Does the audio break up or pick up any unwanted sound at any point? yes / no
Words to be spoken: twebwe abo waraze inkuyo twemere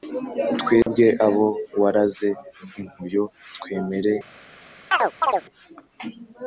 yes